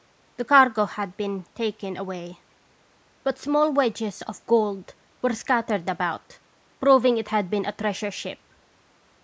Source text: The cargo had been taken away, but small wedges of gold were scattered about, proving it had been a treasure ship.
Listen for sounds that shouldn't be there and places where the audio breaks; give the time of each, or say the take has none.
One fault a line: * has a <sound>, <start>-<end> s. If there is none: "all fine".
all fine